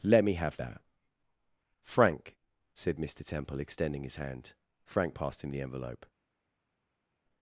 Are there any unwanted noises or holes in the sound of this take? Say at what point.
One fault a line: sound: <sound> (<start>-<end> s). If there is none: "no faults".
no faults